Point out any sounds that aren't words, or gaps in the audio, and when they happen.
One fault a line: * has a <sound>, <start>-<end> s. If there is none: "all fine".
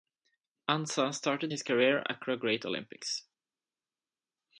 all fine